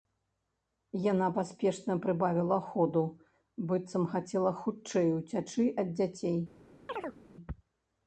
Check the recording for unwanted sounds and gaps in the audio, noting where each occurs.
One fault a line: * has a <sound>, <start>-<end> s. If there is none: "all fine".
* has a chirp, 6.9-7.2 s